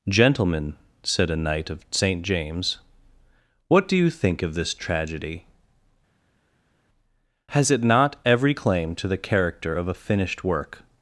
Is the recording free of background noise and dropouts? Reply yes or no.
yes